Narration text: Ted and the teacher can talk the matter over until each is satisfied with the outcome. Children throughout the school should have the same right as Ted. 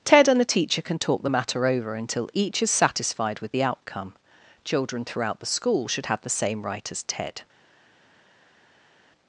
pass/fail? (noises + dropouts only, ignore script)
pass